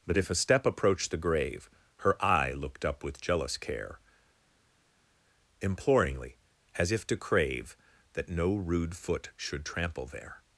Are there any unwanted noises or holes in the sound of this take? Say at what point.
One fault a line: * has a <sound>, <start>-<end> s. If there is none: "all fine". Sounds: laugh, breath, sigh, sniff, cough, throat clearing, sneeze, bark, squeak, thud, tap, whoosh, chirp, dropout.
all fine